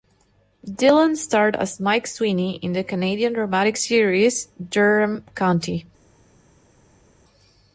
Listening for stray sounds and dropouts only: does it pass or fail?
pass